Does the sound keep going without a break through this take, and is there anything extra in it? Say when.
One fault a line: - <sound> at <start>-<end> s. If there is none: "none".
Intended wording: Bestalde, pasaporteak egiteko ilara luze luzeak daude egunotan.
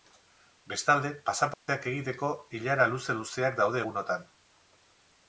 - dropout at 1.5-1.7 s